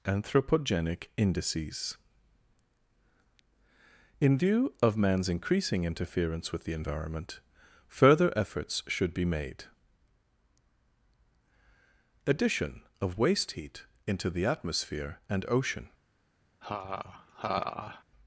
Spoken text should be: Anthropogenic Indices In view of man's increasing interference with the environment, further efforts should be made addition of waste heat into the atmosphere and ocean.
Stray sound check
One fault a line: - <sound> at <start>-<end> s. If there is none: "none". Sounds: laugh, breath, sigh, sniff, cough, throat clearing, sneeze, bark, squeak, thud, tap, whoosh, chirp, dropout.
- laugh at 16.6-18.0 s